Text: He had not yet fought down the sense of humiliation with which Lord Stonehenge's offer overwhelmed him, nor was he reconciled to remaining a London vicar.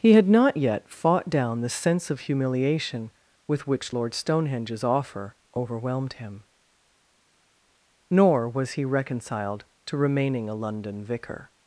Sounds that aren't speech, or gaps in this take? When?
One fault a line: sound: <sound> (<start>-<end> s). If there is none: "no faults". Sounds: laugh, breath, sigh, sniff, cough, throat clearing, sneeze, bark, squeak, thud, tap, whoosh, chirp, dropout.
no faults